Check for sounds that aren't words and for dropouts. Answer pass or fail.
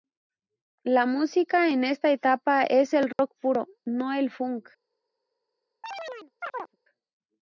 fail